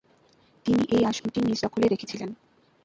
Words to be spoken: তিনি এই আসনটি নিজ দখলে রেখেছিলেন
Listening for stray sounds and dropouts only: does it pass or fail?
fail